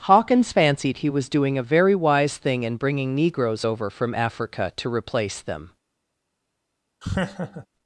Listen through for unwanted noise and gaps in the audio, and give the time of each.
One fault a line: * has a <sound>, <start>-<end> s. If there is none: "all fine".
* has a laugh, 7.0-7.7 s